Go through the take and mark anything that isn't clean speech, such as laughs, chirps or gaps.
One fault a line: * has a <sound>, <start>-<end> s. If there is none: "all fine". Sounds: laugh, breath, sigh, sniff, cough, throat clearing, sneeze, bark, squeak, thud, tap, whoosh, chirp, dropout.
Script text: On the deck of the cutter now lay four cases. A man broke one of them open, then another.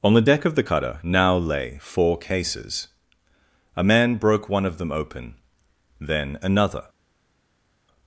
all fine